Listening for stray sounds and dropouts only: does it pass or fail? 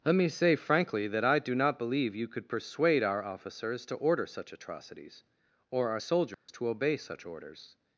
fail